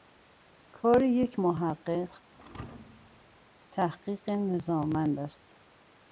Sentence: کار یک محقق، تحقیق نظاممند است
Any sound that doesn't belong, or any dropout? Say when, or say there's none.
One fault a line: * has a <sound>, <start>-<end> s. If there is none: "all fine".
* has a thud, 2.3-3.5 s